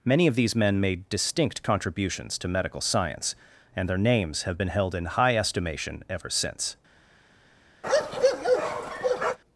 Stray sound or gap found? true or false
true